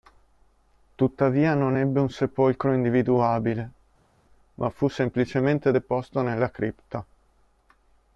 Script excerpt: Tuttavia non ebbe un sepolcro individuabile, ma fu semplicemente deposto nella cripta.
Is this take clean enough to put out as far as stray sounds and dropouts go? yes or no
yes